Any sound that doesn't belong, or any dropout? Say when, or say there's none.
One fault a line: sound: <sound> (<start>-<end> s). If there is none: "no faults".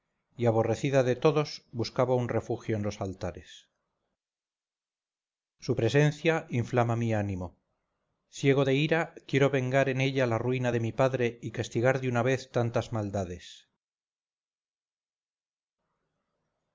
no faults